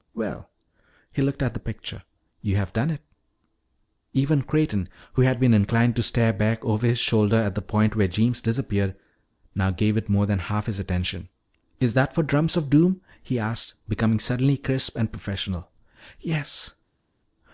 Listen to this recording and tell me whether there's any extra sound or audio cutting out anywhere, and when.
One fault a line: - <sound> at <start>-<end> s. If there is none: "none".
none